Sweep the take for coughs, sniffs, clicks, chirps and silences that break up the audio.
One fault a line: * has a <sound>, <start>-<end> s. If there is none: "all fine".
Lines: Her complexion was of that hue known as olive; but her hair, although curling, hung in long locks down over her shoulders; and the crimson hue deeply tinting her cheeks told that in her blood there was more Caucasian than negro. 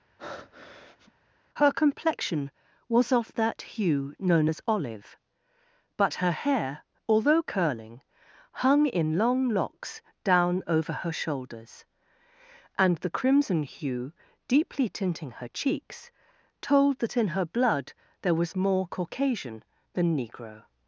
* has a breath, 0.2-1.1 s